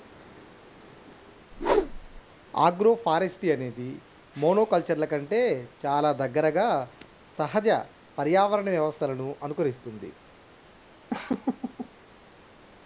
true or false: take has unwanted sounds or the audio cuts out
true